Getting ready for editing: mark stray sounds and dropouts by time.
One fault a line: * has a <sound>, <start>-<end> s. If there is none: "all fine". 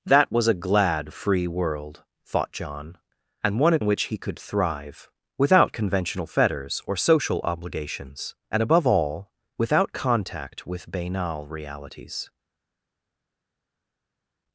all fine